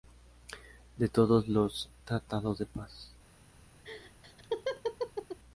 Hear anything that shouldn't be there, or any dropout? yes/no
yes